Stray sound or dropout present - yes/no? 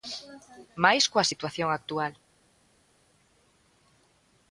no